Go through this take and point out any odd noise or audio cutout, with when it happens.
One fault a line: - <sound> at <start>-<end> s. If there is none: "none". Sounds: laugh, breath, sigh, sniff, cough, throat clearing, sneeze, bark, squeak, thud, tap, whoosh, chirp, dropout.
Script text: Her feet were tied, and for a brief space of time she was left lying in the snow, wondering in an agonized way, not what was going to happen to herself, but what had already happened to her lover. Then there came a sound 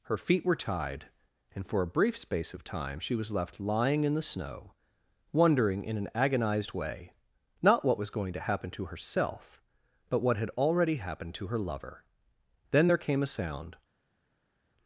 none